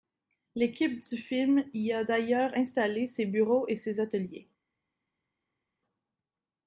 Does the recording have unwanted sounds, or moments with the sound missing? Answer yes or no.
no